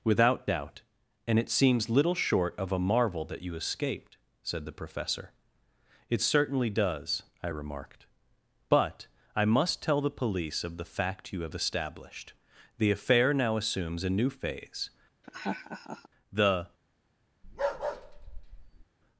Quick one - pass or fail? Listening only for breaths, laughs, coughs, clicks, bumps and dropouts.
fail